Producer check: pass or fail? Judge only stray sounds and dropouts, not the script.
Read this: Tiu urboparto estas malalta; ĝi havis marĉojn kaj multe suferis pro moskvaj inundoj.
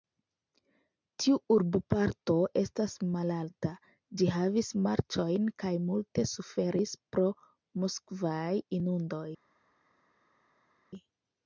pass